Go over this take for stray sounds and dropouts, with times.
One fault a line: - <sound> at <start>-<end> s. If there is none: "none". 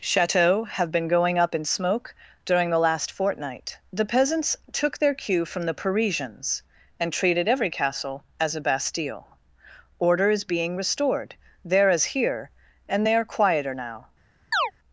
- chirp at 14.5-14.7 s